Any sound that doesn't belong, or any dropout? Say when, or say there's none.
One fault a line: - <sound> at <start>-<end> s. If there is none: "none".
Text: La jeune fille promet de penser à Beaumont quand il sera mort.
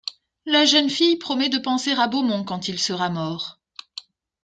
none